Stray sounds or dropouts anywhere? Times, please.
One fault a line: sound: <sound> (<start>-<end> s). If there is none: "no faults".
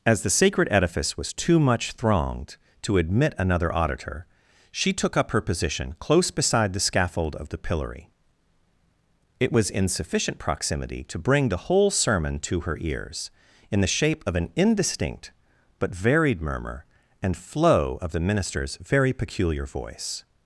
no faults